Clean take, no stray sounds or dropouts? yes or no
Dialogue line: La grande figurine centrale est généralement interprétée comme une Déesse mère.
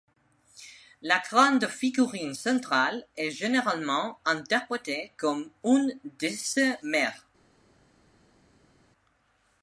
yes